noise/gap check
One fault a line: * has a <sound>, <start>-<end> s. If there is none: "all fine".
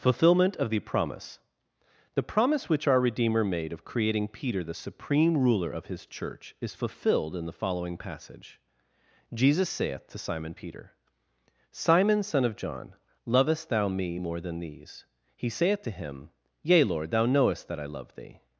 all fine